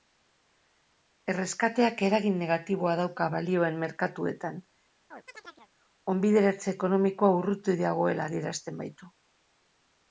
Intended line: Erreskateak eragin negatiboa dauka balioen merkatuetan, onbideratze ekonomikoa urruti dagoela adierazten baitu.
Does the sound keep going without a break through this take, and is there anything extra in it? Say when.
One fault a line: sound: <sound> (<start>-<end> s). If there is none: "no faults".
sound: chirp (5.1-5.7 s)